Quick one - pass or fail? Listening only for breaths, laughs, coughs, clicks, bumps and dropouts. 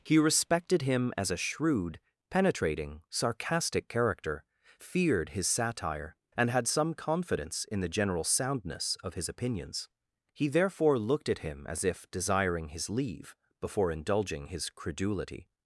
pass